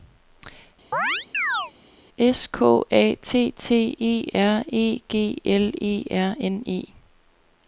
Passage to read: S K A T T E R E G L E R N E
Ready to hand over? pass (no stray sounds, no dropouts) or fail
fail